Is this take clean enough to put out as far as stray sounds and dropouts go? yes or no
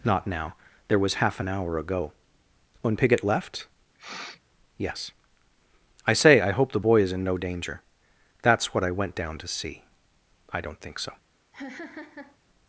no